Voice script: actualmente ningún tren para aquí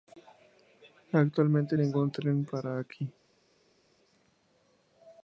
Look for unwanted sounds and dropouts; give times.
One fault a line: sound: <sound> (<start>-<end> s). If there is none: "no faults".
no faults